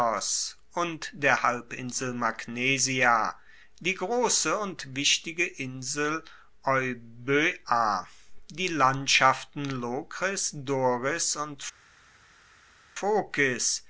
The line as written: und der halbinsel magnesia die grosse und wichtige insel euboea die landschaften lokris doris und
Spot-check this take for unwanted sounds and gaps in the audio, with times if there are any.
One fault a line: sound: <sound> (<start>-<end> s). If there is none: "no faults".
no faults